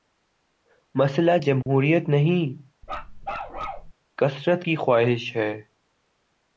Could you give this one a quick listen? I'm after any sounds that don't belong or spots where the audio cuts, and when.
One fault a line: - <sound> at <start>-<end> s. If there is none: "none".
- dropout at 1.6-1.7 s
- bark at 2.8-3.9 s